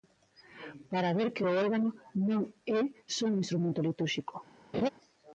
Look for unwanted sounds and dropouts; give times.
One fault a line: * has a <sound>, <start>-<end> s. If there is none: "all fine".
* has a laugh, 4.7-4.9 s